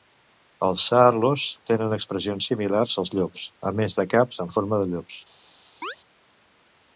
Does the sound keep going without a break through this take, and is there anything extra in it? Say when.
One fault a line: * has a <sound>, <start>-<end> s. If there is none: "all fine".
* has a chirp, 5.8-6.0 s